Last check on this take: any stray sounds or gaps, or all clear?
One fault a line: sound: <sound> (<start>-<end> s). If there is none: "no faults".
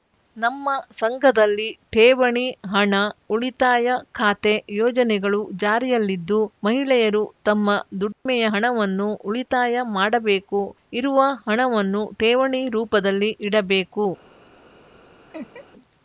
sound: dropout (8.1-8.3 s)
sound: laugh (15.3-15.7 s)